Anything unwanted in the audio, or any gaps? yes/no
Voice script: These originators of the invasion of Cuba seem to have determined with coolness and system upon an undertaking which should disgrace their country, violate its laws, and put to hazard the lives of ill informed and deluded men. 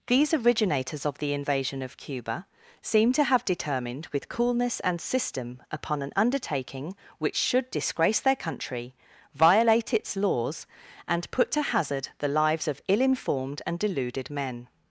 no